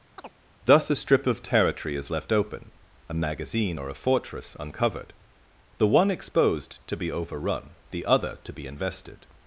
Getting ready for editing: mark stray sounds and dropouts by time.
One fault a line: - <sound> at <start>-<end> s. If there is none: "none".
- chirp at 0.2-0.4 s